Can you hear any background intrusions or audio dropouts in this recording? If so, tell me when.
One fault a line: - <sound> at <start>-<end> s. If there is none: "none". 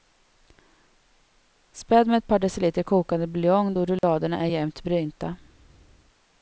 - dropout at 4.0-4.0 s